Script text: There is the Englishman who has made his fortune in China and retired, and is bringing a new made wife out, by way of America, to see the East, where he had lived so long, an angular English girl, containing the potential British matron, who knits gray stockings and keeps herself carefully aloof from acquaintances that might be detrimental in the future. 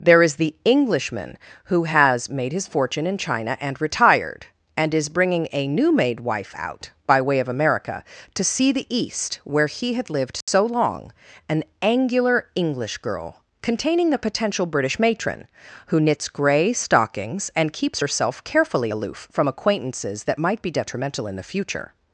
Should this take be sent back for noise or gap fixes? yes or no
yes